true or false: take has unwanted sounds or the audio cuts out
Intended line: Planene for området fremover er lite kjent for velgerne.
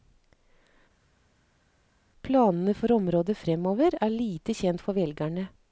false